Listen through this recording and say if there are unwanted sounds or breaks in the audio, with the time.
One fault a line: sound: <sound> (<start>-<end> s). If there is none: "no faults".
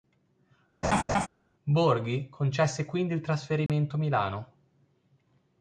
sound: laugh (0.8-1.3 s)
sound: dropout (3.7-3.7 s)